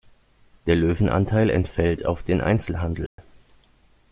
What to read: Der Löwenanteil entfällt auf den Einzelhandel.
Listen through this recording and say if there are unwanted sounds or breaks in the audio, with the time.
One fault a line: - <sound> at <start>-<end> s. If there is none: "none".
- dropout at 3.1-3.2 s